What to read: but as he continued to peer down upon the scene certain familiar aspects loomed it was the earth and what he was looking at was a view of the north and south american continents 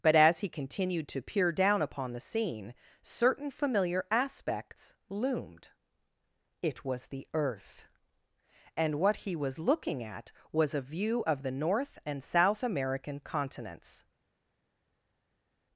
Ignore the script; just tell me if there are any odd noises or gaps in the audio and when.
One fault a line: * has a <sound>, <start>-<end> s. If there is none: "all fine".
all fine